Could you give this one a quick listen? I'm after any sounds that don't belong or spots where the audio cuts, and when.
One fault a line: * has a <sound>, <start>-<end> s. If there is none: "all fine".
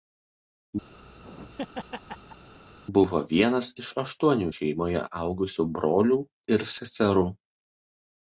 * has a laugh, 0.9-2.5 s